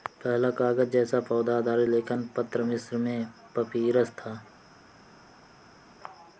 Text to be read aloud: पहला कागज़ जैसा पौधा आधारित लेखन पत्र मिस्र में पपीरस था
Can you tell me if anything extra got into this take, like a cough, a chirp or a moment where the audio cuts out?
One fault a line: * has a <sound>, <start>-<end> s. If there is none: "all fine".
all fine